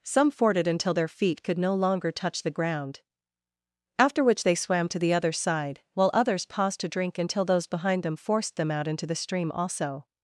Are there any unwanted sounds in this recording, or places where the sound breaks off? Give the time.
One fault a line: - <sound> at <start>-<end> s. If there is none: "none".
none